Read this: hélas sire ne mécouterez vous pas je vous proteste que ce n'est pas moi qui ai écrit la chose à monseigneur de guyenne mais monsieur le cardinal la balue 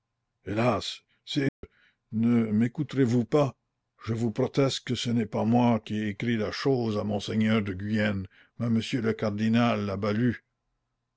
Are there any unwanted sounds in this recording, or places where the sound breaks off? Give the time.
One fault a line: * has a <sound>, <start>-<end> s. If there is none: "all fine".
* has a dropout, 1.5-1.6 s